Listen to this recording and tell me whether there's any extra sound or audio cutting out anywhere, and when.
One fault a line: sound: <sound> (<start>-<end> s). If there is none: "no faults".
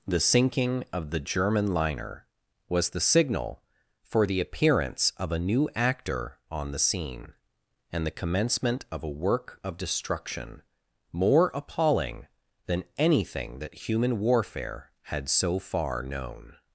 no faults